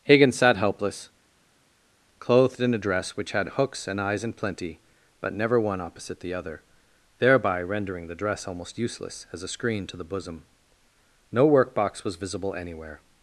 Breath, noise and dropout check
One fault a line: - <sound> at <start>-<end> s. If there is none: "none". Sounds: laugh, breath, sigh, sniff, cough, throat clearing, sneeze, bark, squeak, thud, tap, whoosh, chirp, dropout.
none